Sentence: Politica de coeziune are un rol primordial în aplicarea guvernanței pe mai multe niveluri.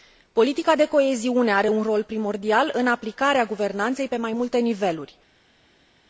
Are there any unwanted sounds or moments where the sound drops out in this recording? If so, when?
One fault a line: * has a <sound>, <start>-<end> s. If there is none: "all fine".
all fine